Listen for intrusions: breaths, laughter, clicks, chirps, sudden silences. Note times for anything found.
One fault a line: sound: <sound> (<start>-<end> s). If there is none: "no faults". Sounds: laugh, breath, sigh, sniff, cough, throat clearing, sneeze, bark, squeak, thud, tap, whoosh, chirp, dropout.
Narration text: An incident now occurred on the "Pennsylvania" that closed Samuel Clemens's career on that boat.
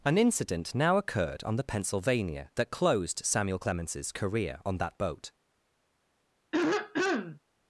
sound: throat clearing (6.5-7.4 s)